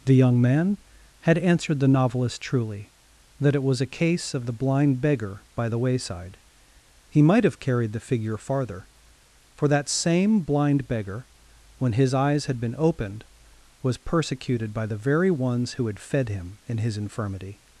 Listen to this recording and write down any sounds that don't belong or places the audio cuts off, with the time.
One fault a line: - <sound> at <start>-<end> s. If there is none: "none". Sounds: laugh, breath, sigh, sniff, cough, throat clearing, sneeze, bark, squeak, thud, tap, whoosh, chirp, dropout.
none